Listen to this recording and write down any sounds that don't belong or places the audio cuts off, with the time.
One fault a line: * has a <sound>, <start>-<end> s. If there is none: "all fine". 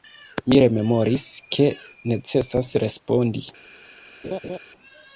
* has a laugh, 4.2-4.6 s